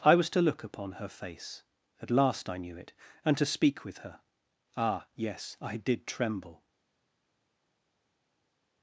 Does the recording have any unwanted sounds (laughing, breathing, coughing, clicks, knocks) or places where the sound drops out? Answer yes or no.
no